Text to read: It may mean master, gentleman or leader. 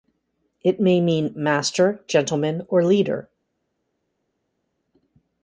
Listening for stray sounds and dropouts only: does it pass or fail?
pass